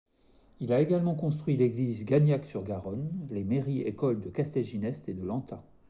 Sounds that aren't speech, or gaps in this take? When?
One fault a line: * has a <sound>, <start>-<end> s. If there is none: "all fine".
all fine